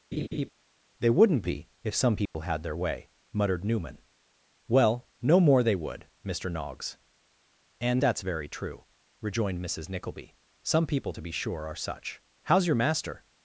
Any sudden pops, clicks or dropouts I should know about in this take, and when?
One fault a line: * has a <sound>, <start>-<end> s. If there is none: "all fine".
* has a laugh, 0.1-0.5 s
* has a dropout, 2.3-2.3 s